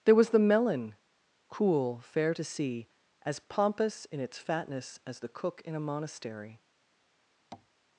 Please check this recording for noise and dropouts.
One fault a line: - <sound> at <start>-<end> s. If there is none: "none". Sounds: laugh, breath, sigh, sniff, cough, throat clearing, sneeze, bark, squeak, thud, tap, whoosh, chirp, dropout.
- tap at 7.5-7.7 s